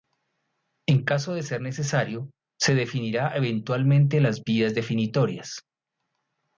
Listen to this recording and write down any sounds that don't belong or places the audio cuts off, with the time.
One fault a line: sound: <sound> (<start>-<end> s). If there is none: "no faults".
no faults